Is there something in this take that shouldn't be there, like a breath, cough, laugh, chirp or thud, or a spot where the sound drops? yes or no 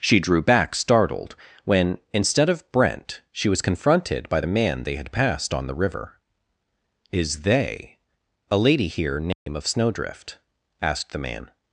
yes